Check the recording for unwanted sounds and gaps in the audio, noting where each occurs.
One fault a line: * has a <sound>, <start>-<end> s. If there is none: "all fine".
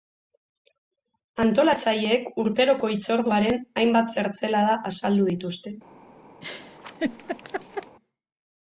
* has a laugh, 6.4-8.0 s